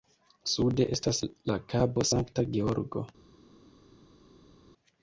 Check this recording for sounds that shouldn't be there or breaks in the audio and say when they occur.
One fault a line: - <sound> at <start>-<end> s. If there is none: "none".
none